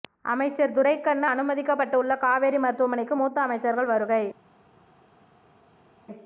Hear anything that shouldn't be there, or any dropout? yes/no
no